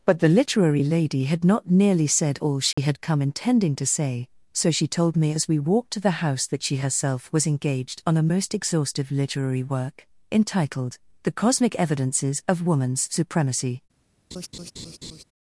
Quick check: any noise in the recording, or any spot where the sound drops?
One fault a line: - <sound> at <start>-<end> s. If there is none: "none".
- dropout at 2.7-2.8 s
- laugh at 14.3-15.2 s